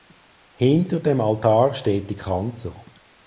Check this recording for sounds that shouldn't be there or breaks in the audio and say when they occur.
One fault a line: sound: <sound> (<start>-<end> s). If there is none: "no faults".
no faults